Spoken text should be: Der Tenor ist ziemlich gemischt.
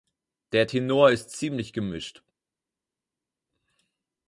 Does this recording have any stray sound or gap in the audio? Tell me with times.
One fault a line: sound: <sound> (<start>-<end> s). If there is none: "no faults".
no faults